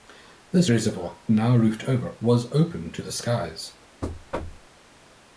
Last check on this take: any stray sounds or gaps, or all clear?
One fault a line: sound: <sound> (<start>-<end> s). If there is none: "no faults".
sound: thud (4.0-4.7 s)